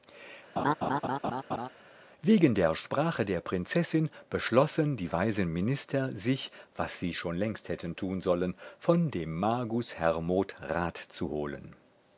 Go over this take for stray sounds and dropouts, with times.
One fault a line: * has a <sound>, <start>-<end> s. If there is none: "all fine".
* has a laugh, 0.6-1.7 s